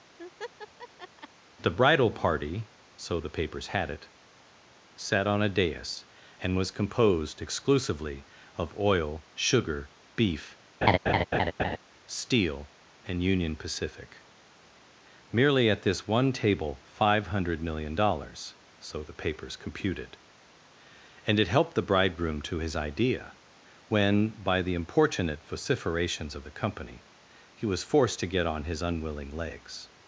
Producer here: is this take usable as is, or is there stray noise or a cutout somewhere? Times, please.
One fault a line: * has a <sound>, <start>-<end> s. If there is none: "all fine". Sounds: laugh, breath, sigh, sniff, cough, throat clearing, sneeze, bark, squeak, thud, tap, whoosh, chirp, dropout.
* has a laugh, 0.2-1.3 s
* has a laugh, 10.8-11.8 s